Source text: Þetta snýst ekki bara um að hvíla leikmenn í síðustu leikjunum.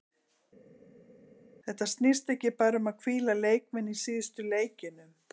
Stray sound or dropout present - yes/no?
no